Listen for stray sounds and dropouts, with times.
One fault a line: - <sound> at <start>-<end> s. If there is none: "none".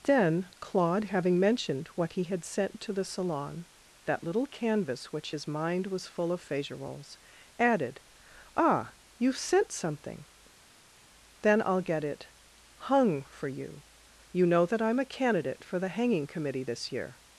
none